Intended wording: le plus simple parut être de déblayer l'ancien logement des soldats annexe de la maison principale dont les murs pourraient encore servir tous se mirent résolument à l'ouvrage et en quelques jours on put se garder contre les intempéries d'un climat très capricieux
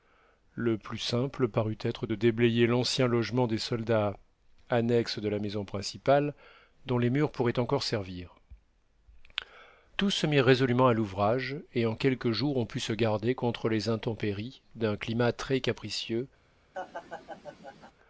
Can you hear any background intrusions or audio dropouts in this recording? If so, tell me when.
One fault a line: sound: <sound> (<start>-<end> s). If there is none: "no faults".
sound: laugh (16.7-17.9 s)